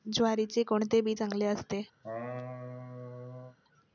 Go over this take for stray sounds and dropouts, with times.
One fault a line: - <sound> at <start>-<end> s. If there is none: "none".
- laugh at 2.0-3.6 s